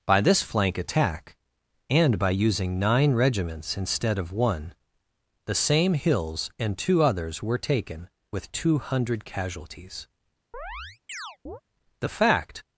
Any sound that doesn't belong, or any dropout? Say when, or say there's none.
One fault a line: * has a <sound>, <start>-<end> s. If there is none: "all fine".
* has a chirp, 10.5-11.6 s